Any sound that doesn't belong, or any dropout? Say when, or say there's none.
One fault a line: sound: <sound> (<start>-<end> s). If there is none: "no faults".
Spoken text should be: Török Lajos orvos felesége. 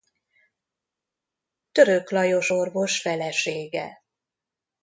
no faults